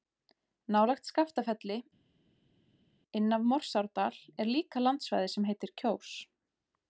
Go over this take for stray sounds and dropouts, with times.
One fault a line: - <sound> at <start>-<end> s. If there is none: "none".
none